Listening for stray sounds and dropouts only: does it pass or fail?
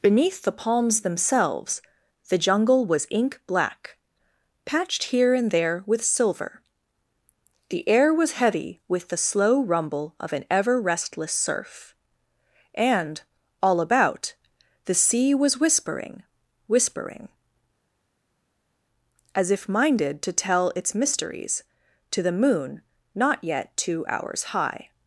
pass